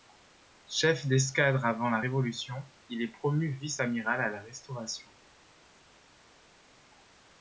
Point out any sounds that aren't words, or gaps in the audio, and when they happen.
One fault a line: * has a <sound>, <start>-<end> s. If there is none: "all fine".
all fine